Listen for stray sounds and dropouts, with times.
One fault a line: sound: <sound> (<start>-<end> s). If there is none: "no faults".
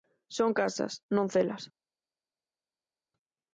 no faults